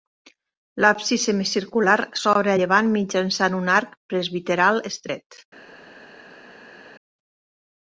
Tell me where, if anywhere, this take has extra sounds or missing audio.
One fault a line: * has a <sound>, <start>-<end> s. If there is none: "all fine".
all fine